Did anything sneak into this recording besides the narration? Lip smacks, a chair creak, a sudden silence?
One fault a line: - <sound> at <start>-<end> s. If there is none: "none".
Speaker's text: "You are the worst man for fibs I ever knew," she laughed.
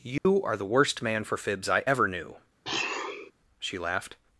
- dropout at 0.2-0.3 s
- sniff at 2.6-3.3 s